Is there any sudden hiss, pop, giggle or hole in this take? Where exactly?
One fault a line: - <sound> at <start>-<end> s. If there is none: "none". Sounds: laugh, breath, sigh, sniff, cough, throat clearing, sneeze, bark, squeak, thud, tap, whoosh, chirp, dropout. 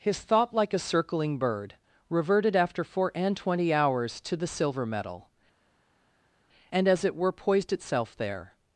none